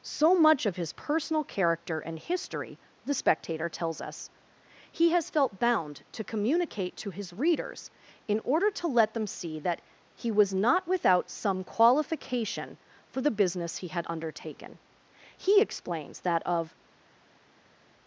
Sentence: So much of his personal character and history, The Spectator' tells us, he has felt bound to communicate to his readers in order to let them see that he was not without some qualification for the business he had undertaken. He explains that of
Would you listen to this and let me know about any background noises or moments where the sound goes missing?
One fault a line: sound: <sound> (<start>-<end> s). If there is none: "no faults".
no faults